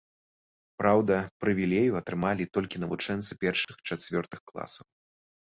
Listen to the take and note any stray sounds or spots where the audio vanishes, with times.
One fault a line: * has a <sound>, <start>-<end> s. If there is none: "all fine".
* has a dropout, 3.6-3.7 s